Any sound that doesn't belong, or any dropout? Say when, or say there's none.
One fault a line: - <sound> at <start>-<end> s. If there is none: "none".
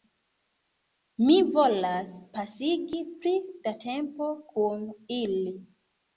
none